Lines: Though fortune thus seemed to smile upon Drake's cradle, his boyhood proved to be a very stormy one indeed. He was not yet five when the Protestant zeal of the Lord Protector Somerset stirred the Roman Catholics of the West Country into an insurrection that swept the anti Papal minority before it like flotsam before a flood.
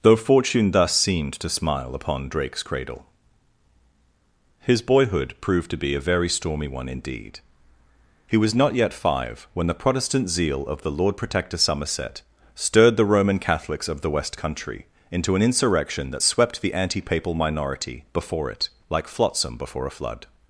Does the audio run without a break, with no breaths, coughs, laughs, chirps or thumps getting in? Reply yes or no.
yes